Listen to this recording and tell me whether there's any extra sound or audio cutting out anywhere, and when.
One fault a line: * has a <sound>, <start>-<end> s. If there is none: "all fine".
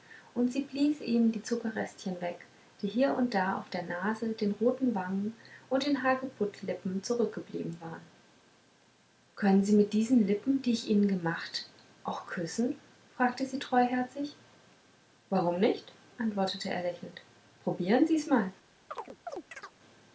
* has a chirp, 18.9-19.8 s